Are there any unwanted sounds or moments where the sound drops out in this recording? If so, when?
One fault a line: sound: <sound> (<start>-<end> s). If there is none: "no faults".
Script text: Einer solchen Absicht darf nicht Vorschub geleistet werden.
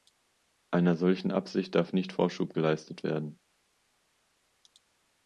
no faults